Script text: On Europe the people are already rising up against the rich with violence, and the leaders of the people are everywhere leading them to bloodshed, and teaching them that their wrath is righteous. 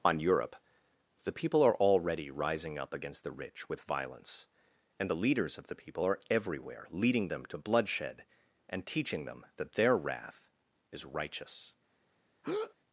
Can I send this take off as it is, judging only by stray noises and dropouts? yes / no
no